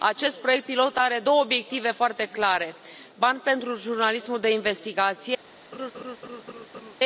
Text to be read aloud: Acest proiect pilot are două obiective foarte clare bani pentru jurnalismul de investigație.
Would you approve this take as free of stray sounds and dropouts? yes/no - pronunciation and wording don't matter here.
no